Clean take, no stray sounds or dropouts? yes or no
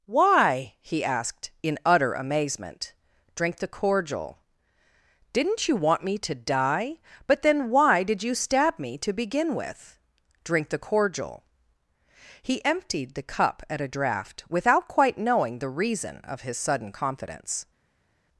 yes